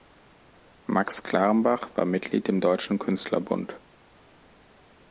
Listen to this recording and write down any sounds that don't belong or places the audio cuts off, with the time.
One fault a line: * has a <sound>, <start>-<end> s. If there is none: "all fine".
all fine